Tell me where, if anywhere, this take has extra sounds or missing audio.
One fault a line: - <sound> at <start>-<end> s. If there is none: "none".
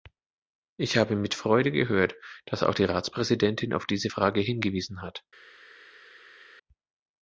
none